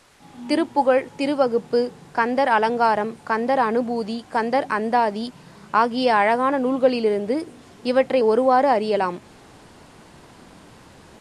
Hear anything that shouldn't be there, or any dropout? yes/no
no